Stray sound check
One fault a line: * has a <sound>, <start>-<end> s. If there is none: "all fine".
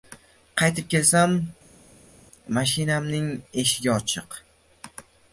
all fine